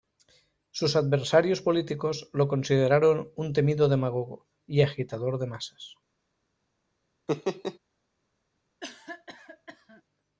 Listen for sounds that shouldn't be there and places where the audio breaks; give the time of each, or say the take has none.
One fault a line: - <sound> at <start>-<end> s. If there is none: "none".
- laugh at 7.3-7.8 s
- cough at 8.8-10.0 s